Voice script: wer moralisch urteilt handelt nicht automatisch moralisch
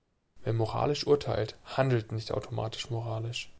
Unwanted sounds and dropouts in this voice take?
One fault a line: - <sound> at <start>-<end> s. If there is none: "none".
none